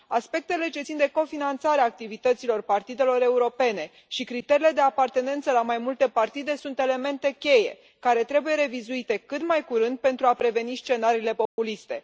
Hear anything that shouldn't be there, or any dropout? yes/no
yes